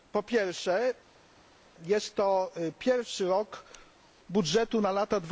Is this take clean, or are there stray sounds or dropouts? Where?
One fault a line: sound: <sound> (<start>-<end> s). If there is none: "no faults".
no faults